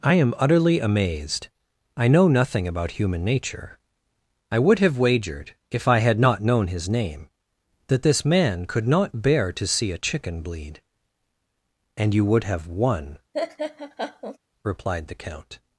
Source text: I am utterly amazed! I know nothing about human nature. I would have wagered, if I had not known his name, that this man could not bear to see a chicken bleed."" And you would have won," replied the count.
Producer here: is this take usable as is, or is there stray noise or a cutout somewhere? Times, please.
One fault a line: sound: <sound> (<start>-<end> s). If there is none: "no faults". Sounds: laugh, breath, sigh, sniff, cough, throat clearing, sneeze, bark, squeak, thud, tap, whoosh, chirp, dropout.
sound: laugh (13.3-14.4 s)